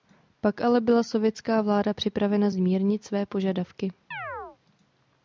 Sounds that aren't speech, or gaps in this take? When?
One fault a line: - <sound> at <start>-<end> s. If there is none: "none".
- chirp at 4.1-4.6 s